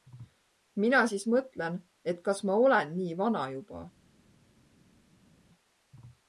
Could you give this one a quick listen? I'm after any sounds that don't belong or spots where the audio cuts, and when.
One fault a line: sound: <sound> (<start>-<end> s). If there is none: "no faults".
no faults